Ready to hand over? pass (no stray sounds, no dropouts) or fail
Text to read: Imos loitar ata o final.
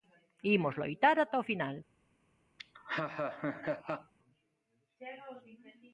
fail